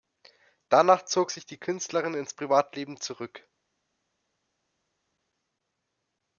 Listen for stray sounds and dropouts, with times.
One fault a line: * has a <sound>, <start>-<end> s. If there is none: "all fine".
all fine